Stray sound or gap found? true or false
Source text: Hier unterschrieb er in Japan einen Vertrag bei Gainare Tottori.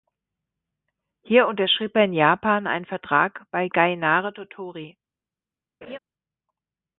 true